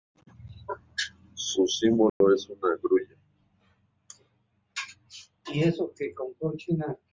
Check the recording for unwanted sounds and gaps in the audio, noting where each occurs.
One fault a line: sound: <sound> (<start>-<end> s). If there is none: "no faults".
sound: dropout (2.1-2.2 s)